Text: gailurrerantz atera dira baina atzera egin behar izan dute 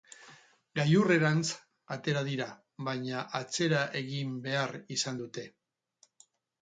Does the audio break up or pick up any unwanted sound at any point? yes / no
no